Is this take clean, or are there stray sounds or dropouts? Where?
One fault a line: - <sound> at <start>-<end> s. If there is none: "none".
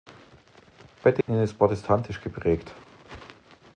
- dropout at 1.2-1.3 s